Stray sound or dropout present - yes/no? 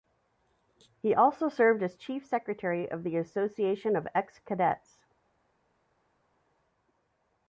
no